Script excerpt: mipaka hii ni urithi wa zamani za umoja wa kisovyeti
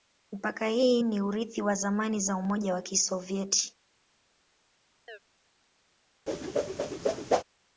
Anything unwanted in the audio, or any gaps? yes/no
yes